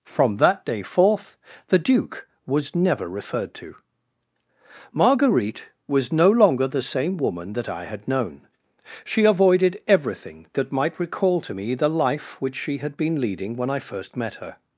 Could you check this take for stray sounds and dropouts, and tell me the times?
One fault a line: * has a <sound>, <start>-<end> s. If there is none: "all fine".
all fine